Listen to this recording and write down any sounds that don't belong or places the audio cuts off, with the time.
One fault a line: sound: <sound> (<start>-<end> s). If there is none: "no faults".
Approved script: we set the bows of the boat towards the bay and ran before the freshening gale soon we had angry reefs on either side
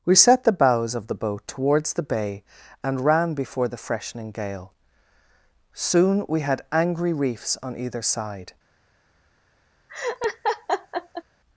sound: laugh (9.9-11.2 s)